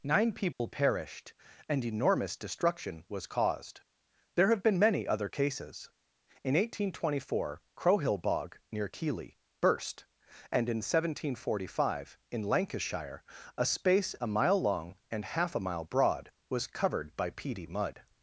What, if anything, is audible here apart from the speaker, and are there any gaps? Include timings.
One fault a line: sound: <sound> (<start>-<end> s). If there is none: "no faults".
sound: dropout (0.5-0.6 s)